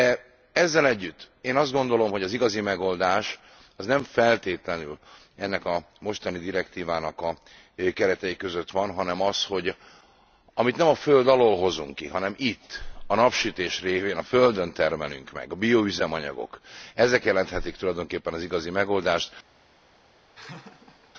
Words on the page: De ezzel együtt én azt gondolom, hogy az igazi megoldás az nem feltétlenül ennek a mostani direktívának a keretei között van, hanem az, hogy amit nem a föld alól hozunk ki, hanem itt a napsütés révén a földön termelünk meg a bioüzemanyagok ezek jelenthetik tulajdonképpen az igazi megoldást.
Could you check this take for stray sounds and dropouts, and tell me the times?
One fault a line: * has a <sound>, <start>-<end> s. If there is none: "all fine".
* has a laugh, 20.3-21.1 s